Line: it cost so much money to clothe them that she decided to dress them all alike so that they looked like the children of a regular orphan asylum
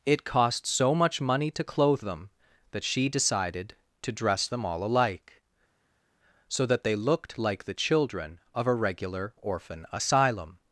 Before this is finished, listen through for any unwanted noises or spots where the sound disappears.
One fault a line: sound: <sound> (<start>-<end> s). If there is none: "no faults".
no faults